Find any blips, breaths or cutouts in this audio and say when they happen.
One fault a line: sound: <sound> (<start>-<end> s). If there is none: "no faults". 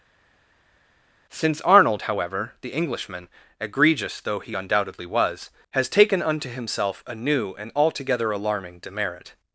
no faults